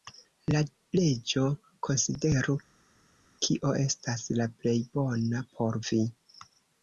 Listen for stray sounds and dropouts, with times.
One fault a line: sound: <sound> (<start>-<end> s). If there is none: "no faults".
no faults